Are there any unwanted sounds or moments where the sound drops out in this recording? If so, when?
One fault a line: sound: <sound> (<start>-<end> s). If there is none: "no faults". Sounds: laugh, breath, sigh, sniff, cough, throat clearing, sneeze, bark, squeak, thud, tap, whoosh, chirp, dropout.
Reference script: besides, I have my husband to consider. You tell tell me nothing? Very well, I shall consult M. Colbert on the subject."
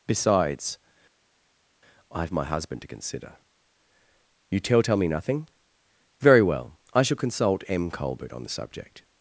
no faults